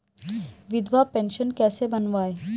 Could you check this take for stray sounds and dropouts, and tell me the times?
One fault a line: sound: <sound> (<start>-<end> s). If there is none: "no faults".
no faults